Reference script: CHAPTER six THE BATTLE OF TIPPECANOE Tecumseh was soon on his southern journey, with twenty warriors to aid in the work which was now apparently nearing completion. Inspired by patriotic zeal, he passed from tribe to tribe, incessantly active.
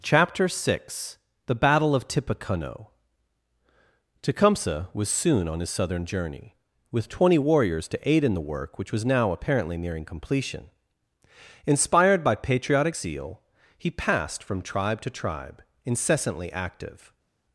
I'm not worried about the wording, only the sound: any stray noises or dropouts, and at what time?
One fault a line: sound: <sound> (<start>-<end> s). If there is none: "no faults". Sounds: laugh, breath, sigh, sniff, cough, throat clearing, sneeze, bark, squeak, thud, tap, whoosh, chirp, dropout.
no faults